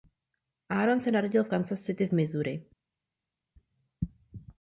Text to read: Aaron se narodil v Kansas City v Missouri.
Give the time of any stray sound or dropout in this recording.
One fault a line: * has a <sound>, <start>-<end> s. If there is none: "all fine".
all fine